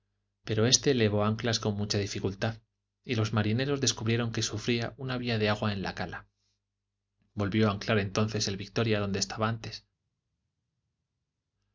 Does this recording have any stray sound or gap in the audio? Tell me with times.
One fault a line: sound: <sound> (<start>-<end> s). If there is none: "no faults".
no faults